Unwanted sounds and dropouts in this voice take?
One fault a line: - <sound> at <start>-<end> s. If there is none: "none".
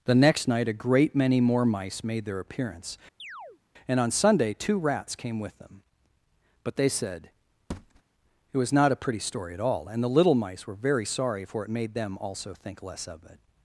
- chirp at 3.2-3.6 s
- thud at 7.7-8.0 s